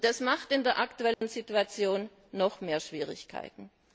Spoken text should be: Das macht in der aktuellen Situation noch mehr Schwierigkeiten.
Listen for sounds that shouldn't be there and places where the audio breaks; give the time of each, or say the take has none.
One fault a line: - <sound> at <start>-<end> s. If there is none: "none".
- dropout at 1.1-1.2 s